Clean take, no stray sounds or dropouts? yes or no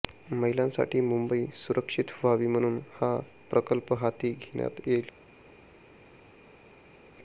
yes